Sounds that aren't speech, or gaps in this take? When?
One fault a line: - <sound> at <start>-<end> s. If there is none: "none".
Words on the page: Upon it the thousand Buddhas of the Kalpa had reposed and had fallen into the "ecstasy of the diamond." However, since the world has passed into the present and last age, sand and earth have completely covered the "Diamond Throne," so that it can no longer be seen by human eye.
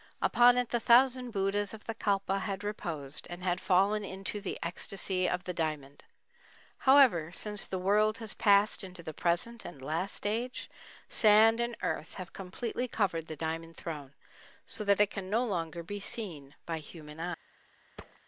- thud at 18.0-18.2 s